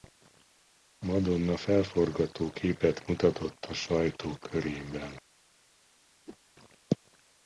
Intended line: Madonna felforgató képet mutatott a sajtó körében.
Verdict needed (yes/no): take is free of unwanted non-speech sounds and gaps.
no